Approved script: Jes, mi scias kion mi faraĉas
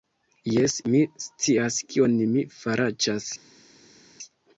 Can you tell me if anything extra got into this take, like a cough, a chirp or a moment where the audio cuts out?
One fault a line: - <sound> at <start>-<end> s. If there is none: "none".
none